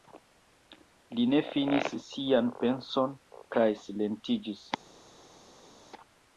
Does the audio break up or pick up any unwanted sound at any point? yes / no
no